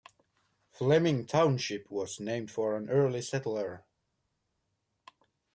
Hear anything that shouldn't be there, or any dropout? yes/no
no